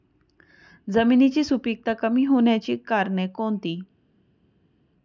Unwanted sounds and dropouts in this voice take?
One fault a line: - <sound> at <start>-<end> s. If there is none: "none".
none